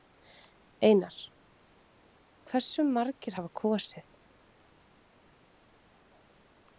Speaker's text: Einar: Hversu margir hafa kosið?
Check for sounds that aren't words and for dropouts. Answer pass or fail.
pass